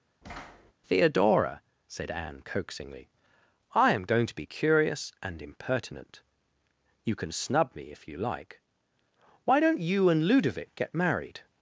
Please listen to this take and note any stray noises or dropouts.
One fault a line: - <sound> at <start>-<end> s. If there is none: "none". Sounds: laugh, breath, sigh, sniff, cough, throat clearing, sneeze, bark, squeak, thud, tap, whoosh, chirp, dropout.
- thud at 0.2-0.7 s